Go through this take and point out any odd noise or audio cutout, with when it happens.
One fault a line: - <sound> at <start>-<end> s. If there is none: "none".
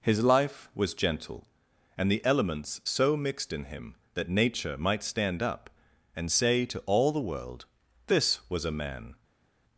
none